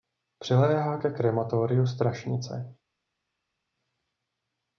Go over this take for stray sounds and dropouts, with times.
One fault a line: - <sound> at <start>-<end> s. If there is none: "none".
none